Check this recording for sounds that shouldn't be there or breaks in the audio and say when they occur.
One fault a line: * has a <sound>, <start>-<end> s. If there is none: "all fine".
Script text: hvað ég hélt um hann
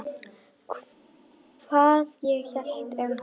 all fine